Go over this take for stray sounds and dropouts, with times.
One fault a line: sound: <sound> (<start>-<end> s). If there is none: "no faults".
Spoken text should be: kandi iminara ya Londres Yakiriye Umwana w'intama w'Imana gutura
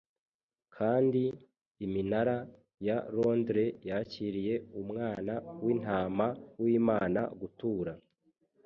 no faults